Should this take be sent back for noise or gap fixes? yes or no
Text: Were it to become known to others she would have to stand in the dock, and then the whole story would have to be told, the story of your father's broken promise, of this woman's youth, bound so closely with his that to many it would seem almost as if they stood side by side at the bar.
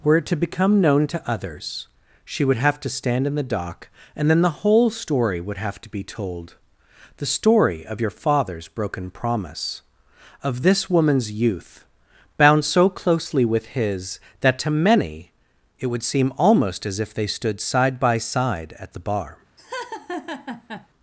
yes